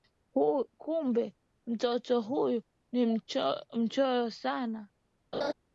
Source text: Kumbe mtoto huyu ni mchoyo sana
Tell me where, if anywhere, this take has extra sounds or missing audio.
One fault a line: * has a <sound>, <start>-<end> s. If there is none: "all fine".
* has a laugh, 5.3-5.5 s